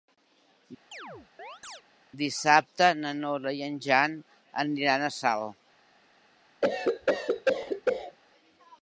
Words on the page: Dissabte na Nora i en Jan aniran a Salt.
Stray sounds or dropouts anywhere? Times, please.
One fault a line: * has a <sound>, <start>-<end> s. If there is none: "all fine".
* has a chirp, 0.9-1.8 s
* has a cough, 6.6-8.2 s